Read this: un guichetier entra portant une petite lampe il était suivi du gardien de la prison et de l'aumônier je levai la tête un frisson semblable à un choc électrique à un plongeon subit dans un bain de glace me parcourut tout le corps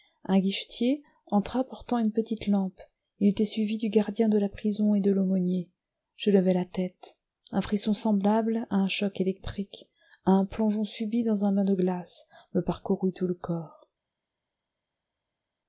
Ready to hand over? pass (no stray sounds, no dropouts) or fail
pass